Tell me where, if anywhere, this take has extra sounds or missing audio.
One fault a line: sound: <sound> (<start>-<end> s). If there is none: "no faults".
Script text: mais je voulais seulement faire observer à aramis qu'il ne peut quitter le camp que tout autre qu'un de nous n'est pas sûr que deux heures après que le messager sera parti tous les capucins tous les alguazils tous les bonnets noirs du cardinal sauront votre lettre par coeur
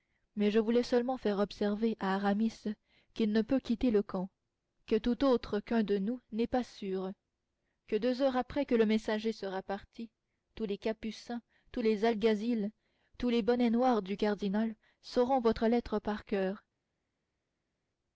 no faults